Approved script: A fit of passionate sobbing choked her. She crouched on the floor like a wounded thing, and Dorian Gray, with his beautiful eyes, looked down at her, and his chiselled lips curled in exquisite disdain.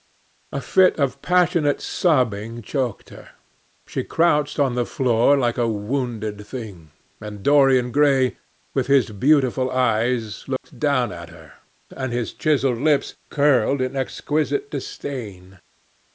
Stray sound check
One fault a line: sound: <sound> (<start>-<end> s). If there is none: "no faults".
sound: dropout (10.6-10.6 s)